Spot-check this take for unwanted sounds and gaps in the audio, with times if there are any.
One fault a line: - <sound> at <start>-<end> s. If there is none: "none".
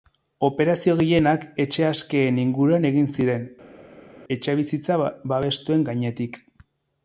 none